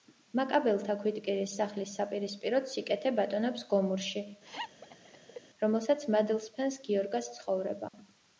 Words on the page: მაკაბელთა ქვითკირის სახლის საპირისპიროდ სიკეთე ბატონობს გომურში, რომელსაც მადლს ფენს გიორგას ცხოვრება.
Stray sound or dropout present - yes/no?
yes